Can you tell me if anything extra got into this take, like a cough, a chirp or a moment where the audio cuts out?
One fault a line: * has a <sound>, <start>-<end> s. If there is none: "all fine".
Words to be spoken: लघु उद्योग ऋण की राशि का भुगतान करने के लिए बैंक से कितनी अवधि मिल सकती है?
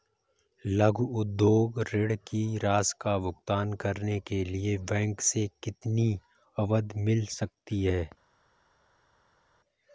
all fine